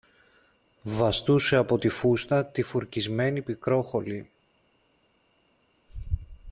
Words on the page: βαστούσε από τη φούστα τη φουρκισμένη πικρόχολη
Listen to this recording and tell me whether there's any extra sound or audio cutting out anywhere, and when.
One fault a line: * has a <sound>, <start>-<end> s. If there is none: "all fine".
all fine